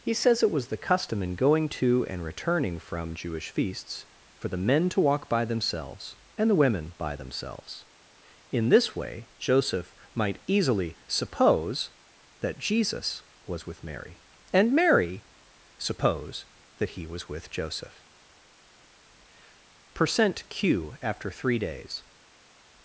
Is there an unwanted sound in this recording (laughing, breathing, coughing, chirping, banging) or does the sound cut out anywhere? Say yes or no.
no